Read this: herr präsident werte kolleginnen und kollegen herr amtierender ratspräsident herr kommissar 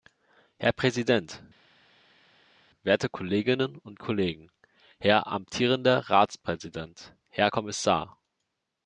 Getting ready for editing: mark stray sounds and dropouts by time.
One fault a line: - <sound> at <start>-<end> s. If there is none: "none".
none